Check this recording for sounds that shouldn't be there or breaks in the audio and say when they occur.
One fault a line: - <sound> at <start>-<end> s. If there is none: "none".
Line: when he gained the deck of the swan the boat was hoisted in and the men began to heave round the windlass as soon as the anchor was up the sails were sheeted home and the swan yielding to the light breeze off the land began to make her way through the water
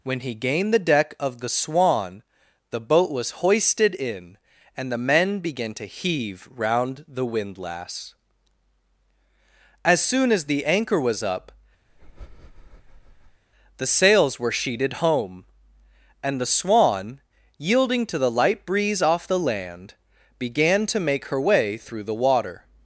- breath at 11.9-13.4 s